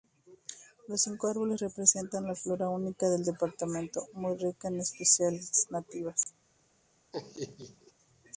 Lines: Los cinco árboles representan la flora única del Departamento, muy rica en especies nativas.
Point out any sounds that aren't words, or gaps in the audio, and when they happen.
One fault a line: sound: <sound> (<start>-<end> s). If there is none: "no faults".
sound: dropout (6.2-6.3 s)
sound: laugh (7.1-7.9 s)